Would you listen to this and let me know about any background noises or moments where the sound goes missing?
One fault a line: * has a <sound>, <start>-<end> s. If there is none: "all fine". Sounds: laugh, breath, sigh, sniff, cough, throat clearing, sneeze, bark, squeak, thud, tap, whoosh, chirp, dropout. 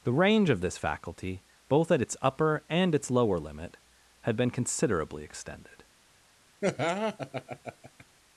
* has a laugh, 6.6-8.0 s